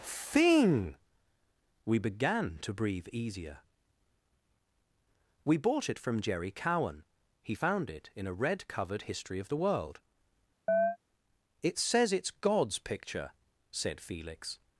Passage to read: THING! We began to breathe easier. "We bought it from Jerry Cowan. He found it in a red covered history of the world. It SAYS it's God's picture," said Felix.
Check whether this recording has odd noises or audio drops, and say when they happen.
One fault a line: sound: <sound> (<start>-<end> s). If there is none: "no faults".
sound: chirp (10.7-11.0 s)